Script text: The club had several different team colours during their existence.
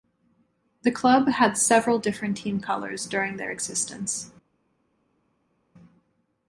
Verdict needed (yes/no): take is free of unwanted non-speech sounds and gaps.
yes